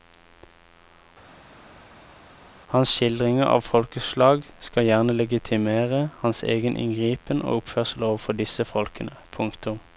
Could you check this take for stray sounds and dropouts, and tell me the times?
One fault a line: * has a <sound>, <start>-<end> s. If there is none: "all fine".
all fine